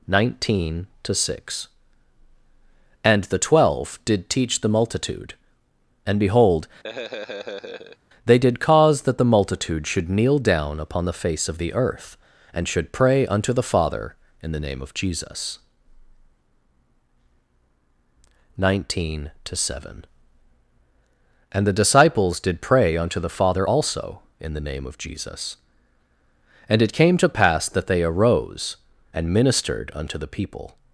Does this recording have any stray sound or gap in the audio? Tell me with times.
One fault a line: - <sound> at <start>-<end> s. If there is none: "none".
- laugh at 6.8-8.0 s